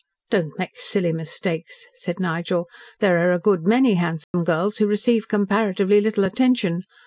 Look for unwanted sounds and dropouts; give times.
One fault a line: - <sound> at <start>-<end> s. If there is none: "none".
- dropout at 4.2-4.3 s